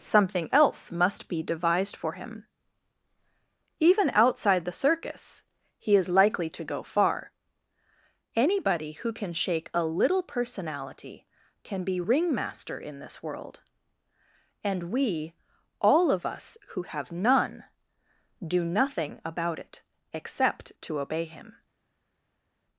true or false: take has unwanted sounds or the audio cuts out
false